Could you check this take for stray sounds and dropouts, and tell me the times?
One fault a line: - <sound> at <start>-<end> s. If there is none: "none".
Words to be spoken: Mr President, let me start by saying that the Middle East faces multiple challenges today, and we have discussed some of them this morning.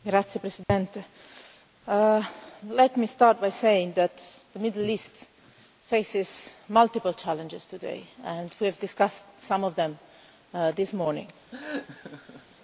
- dropout at 0.6-0.7 s
- laugh at 11.5-12.6 s